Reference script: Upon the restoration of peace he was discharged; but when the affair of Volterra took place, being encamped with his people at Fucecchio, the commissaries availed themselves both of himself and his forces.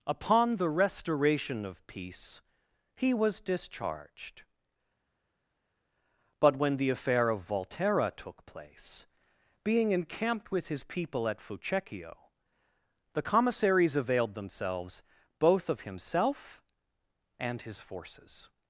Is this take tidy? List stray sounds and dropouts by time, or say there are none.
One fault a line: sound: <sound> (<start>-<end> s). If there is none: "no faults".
no faults